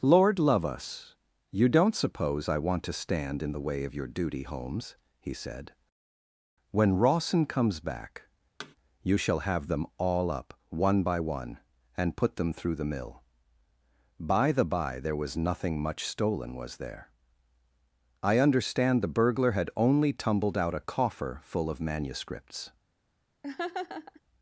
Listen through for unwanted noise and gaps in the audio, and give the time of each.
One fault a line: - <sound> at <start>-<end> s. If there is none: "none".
- thud at 8.6-8.8 s
- laugh at 23.4-24.2 s